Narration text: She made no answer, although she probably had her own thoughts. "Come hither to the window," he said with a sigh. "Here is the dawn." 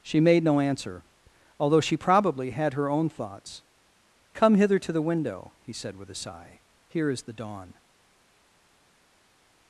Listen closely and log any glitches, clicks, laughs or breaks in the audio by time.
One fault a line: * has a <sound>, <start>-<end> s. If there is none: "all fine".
all fine